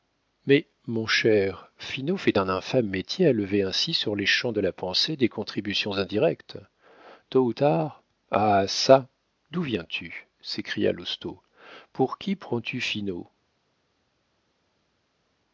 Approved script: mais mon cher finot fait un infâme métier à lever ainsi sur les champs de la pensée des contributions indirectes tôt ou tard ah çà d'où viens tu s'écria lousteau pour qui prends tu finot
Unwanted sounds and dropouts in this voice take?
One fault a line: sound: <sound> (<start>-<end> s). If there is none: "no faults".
no faults